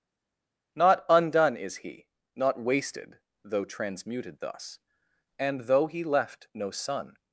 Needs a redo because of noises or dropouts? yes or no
no